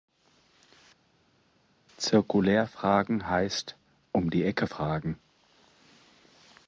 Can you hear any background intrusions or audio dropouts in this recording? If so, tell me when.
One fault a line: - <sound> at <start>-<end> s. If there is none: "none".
none